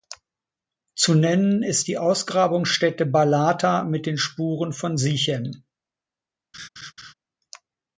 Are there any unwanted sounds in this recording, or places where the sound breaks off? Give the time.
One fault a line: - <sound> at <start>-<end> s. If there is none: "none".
- laugh at 6.5-7.1 s